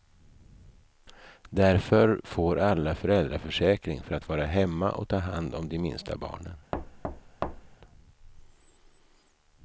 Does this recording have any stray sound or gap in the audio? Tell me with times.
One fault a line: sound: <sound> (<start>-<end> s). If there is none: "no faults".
sound: thud (6.7-7.8 s)